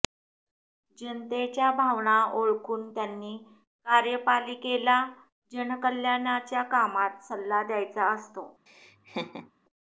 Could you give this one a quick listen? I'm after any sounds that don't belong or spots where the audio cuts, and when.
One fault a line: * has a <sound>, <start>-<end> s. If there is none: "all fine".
* has a laugh, 8.7-9.5 s